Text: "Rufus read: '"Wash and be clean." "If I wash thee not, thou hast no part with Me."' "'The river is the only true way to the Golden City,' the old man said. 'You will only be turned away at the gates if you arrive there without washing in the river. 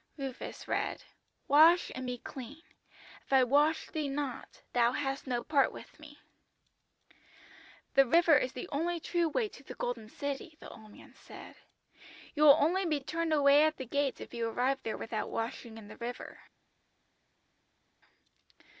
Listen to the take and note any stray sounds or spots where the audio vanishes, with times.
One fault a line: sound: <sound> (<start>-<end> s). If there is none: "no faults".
no faults